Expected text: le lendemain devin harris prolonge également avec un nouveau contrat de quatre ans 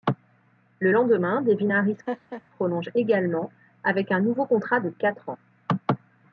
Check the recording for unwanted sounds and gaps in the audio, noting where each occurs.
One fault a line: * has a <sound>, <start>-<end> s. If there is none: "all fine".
* has a laugh, 2.1-2.4 s